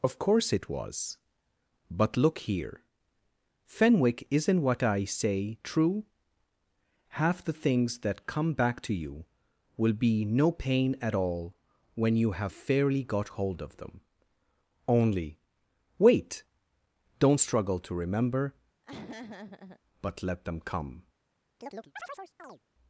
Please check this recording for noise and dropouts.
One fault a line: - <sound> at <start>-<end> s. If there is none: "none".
- laugh at 18.8-19.8 s
- chirp at 21.6-22.6 s